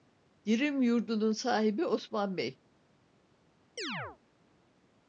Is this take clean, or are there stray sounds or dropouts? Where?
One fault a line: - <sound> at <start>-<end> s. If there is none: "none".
- chirp at 3.8-4.2 s